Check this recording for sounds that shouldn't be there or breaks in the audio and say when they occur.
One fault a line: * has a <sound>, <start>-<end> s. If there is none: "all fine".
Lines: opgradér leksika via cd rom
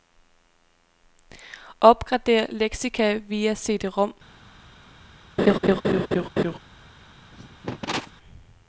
* has a laugh, 5.4-6.6 s
* has a cough, 7.3-8.1 s